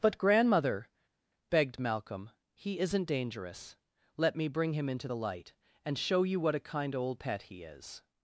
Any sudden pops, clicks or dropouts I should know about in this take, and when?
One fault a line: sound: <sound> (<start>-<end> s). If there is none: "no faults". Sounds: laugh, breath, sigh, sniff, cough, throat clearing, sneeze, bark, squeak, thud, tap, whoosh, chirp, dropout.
no faults